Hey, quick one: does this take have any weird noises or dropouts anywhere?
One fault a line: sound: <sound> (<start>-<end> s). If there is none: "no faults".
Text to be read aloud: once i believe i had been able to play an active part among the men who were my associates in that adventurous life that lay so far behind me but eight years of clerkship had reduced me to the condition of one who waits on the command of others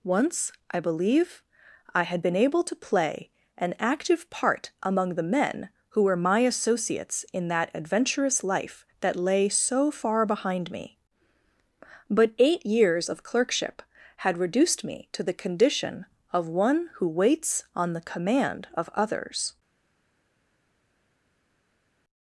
no faults